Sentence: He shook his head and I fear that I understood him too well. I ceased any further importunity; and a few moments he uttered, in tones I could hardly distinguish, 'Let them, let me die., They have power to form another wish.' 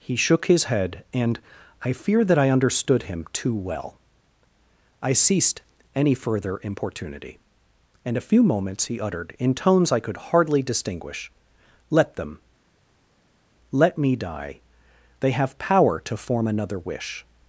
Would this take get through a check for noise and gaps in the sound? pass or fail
pass